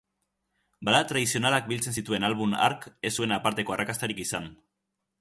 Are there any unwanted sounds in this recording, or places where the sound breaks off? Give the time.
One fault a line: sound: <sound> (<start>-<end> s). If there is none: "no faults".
no faults